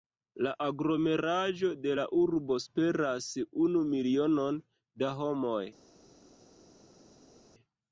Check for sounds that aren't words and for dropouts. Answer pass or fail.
pass